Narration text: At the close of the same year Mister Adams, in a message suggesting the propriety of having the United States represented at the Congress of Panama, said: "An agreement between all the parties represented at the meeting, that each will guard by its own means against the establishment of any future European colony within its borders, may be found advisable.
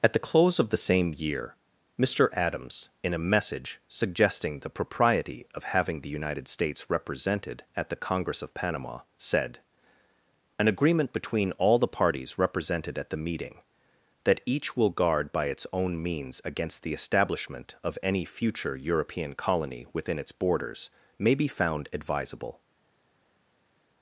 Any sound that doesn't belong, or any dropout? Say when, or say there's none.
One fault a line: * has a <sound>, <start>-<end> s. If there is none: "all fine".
all fine